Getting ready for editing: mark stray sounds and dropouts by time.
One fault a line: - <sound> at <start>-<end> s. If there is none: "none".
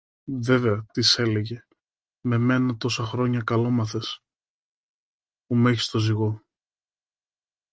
none